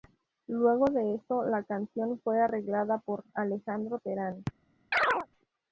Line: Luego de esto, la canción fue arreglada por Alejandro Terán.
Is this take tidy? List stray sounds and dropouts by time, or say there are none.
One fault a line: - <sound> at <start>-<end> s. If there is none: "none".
- chirp at 4.9-5.3 s